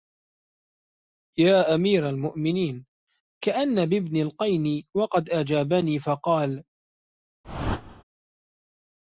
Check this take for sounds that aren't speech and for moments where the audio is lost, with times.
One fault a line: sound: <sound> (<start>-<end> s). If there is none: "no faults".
sound: whoosh (7.4-8.0 s)